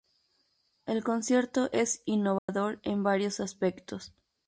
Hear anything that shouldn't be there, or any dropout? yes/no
yes